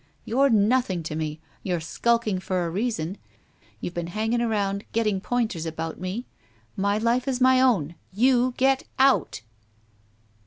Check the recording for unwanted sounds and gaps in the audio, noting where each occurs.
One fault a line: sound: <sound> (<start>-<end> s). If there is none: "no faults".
no faults